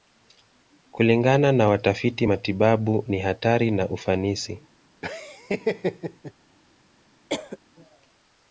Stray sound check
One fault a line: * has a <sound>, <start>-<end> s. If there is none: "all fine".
* has a laugh, 5.0-6.3 s
* has a cough, 7.3-7.6 s